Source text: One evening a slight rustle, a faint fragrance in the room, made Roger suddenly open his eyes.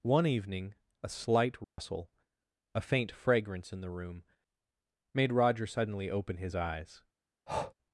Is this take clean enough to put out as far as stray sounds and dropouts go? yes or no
no